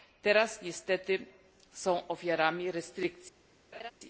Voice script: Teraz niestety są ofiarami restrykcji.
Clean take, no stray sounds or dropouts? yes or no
no